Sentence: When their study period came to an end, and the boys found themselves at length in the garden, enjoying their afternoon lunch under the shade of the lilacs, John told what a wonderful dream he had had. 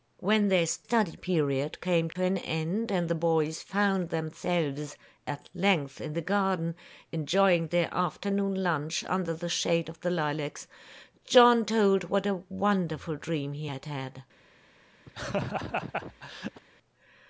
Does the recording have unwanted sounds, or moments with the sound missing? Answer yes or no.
yes